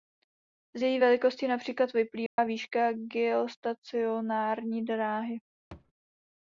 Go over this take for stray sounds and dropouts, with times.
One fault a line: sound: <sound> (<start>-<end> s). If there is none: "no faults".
sound: dropout (2.3-2.4 s)
sound: thud (5.7-5.9 s)